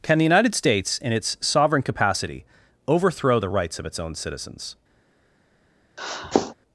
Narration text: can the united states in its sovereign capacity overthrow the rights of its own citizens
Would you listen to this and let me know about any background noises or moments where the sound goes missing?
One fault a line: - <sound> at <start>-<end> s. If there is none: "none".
- sniff at 6.0-6.5 s